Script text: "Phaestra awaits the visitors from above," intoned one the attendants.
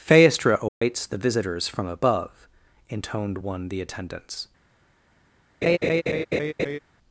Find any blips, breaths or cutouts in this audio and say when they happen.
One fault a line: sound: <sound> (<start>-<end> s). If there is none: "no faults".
sound: dropout (0.7-0.8 s)
sound: laugh (5.6-6.8 s)